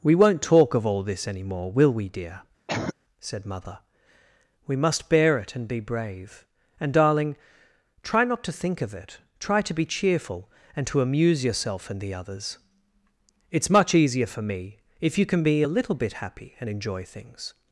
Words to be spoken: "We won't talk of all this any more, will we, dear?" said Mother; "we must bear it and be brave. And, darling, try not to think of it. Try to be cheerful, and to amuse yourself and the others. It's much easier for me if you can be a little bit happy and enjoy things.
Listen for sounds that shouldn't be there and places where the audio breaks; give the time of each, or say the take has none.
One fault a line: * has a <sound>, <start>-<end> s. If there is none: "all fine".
* has a cough, 2.7-2.9 s